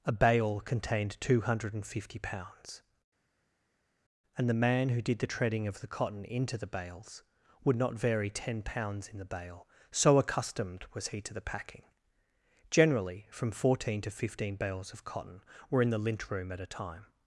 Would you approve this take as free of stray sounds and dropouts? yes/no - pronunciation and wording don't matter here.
yes